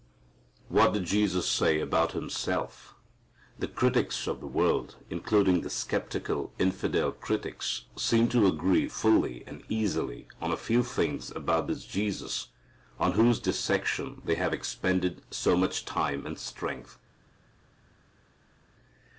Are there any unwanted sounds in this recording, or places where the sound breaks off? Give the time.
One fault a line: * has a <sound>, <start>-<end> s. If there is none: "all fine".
all fine